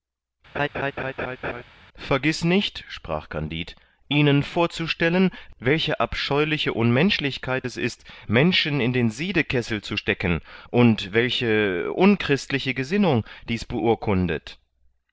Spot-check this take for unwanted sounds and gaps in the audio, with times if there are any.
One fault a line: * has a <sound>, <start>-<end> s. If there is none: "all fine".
* has a laugh, 0.5-1.6 s